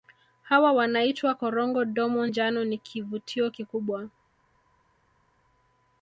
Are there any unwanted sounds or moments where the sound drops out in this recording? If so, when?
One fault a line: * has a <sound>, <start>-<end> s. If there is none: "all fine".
all fine